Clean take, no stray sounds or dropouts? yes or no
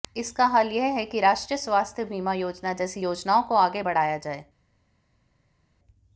yes